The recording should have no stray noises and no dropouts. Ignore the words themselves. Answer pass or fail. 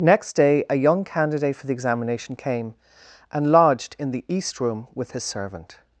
pass